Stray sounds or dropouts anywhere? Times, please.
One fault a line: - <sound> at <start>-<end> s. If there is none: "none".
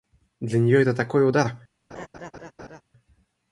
- laugh at 1.9-2.8 s